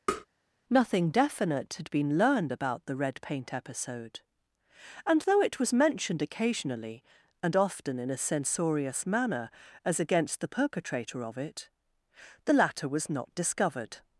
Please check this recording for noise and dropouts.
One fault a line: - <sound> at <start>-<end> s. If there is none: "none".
- tap at 0.1-0.3 s